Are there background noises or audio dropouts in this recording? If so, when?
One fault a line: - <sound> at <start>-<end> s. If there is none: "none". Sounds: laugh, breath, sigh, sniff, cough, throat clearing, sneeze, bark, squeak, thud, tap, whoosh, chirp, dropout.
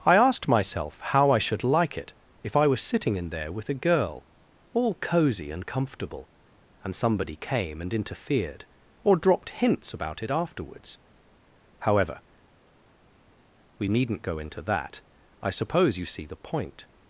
none